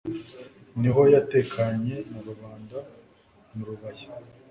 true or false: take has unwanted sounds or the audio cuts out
false